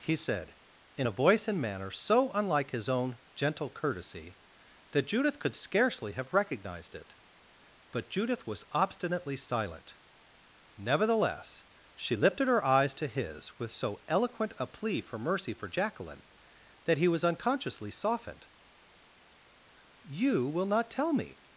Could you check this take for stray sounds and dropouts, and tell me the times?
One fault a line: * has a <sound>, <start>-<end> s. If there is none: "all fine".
all fine